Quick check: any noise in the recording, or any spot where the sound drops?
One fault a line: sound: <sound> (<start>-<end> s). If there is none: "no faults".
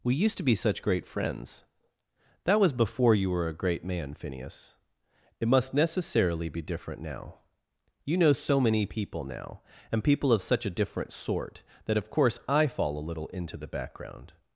no faults